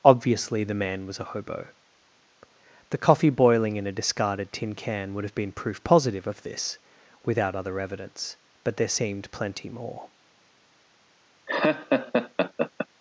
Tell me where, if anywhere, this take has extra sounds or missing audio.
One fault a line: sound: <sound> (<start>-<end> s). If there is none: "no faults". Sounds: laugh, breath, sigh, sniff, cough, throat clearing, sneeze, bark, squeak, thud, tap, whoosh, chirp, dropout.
sound: laugh (11.5-12.9 s)